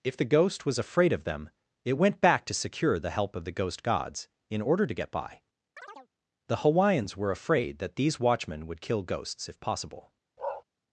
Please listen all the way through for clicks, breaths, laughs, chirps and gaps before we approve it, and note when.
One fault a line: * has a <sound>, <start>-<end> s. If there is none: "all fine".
* has a chirp, 5.8-6.1 s
* has a bark, 10.4-10.6 s